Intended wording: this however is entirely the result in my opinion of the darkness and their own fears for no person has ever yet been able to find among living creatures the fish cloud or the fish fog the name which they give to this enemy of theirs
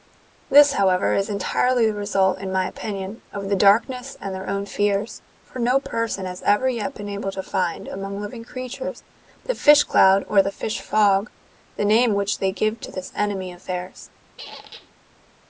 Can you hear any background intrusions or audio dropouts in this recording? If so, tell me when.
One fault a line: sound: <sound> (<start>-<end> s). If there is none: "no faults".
sound: squeak (14.4-14.9 s)